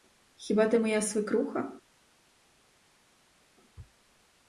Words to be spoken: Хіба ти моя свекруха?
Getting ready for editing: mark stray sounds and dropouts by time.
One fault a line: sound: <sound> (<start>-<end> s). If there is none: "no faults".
no faults